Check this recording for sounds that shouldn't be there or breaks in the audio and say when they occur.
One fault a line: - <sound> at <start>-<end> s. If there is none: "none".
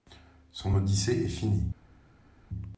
none